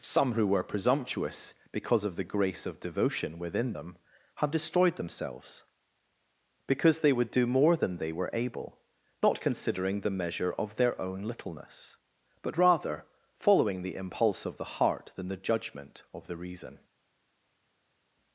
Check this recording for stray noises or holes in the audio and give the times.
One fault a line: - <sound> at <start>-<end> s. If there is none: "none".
none